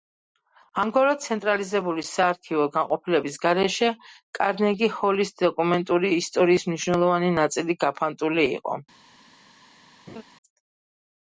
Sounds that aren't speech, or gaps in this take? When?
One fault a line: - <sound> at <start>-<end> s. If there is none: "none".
- laugh at 10.1-10.2 s